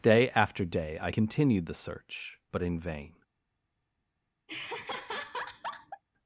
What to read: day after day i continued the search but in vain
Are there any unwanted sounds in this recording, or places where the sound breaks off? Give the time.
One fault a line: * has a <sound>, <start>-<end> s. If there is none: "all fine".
* has a laugh, 4.5-6.0 s